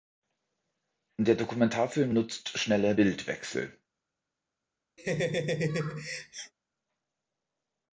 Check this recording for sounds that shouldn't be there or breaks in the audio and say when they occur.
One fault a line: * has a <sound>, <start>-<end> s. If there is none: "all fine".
* has a laugh, 5.0-6.5 s